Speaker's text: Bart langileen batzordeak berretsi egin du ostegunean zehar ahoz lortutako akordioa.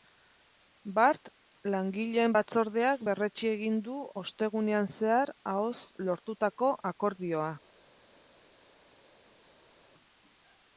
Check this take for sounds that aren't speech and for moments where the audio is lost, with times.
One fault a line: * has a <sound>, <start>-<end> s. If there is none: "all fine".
all fine